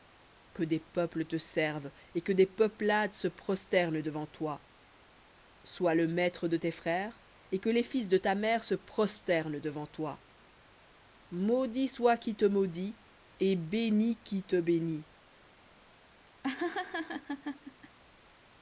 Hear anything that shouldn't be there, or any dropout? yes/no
yes